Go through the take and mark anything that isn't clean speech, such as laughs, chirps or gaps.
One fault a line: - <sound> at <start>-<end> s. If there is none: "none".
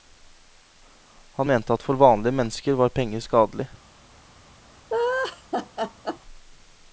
- laugh at 4.9-6.2 s